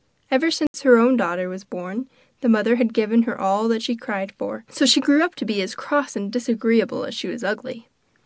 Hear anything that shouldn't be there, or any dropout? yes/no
yes